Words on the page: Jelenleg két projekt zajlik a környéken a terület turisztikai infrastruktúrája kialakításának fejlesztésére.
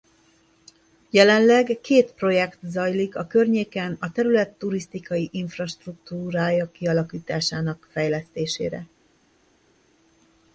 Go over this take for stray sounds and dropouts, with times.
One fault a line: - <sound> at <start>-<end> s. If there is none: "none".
none